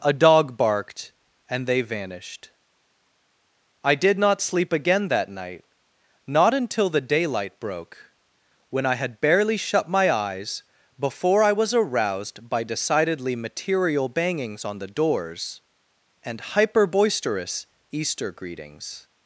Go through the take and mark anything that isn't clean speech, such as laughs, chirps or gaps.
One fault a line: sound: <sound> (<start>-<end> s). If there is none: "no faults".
no faults